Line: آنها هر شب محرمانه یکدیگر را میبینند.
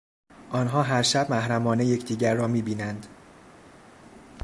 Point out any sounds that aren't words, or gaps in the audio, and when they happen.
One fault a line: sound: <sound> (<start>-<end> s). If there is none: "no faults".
no faults